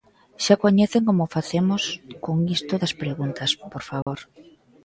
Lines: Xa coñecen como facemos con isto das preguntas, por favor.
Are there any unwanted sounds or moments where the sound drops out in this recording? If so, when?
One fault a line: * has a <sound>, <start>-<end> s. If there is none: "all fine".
* has a dropout, 4.0-4.1 s